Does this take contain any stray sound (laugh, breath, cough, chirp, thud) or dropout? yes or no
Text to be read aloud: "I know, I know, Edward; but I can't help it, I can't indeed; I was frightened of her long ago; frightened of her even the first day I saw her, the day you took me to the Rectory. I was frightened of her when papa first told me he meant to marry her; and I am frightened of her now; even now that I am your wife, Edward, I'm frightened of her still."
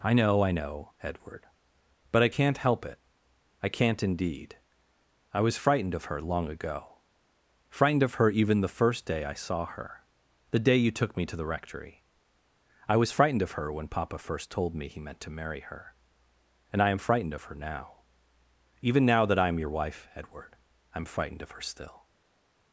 no